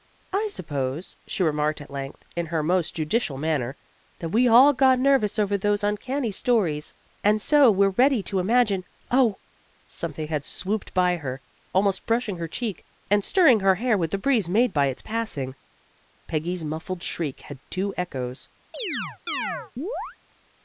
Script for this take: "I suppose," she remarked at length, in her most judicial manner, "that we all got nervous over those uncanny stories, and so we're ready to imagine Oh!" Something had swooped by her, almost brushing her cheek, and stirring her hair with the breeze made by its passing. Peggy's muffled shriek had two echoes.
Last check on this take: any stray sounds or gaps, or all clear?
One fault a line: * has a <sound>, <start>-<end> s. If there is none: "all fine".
* has a chirp, 18.7-20.2 s